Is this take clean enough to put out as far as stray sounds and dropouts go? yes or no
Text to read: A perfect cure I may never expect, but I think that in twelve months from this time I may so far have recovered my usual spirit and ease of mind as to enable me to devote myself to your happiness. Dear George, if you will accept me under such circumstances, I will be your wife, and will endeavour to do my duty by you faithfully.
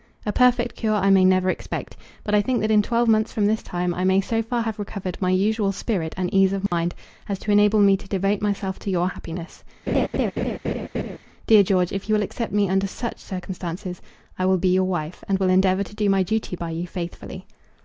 no